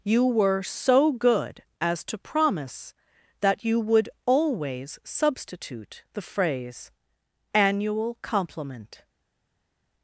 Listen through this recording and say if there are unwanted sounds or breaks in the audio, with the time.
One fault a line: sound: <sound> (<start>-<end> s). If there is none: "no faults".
no faults